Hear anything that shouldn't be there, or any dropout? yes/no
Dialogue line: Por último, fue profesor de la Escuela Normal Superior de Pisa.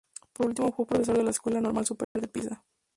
yes